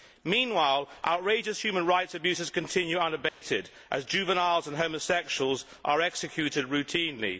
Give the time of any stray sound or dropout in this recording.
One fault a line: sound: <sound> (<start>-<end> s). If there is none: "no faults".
sound: dropout (3.3-3.4 s)